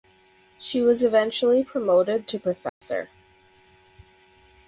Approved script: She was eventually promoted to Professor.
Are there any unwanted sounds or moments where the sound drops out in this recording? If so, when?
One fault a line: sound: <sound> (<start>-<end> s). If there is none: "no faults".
sound: dropout (2.7-2.8 s)